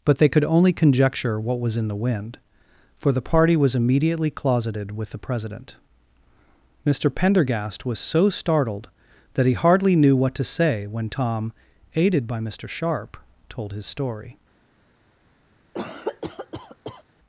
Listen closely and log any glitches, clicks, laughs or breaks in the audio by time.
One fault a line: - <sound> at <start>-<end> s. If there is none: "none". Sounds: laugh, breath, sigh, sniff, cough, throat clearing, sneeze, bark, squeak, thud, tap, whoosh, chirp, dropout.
- cough at 15.7-17.0 s